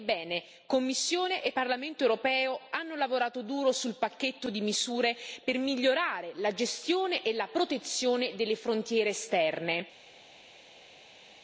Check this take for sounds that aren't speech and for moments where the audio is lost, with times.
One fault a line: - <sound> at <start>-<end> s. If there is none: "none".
none